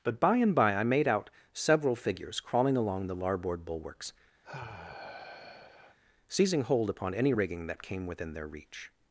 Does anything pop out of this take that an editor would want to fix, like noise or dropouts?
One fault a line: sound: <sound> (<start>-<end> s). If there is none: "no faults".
sound: sigh (4.4-6.0 s)